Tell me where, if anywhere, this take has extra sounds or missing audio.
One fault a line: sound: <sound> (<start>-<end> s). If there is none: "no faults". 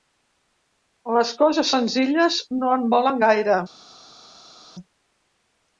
no faults